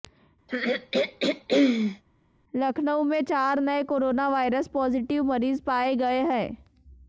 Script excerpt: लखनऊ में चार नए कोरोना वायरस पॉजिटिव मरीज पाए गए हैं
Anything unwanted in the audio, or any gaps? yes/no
yes